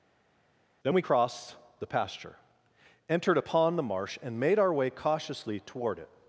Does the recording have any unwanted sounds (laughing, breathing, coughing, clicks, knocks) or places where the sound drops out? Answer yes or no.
no